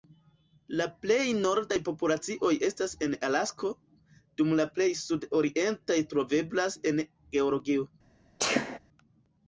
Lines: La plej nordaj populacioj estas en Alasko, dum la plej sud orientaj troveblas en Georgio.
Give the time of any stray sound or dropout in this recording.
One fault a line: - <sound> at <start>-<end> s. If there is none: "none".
- sneeze at 8.4-8.8 s